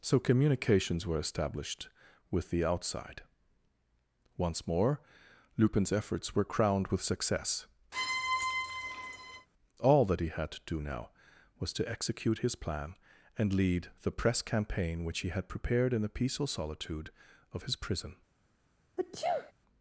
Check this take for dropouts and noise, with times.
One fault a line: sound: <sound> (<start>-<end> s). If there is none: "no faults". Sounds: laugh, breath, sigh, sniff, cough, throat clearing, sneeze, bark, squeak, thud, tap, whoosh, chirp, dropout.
sound: squeak (7.9-9.5 s)
sound: sneeze (19.0-19.5 s)